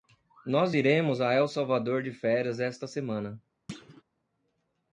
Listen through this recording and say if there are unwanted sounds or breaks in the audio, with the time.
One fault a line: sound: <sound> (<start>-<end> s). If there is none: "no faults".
sound: thud (3.7-4.0 s)